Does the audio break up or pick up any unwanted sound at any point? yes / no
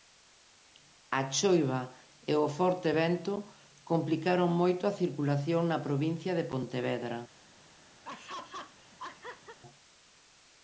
yes